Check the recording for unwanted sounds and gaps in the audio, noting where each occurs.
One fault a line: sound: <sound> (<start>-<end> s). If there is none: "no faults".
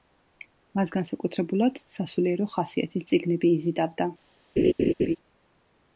sound: laugh (4.6-5.2 s)